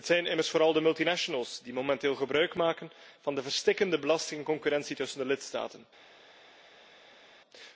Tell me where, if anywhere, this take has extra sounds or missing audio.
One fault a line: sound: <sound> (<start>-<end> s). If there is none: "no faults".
no faults